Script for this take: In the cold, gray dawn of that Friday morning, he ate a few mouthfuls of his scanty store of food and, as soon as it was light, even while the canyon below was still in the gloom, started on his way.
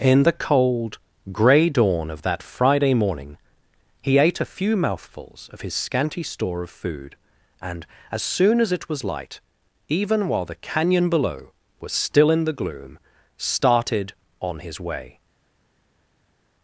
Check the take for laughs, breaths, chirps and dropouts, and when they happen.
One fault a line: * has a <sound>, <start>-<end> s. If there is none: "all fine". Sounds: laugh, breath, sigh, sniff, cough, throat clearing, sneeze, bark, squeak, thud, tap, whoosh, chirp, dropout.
all fine